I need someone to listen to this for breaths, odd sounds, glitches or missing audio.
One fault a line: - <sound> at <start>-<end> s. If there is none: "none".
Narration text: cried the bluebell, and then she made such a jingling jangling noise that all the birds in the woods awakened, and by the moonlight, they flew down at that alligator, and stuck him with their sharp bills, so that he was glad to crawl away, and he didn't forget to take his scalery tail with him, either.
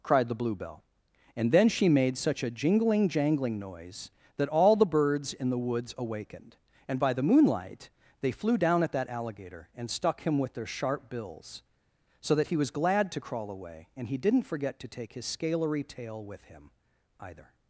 none